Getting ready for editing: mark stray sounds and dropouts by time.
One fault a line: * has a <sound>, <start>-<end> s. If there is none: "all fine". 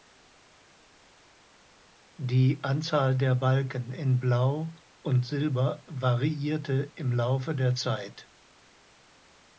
all fine